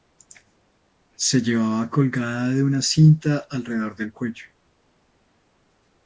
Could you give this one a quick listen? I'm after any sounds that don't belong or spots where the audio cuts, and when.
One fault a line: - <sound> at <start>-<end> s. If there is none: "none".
none